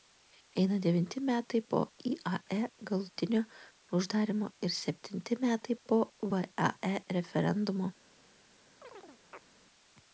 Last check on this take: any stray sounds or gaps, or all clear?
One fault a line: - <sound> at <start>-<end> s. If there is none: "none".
- chirp at 8.8-9.5 s